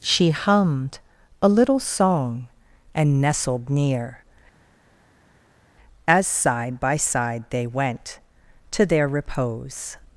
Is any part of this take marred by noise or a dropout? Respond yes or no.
no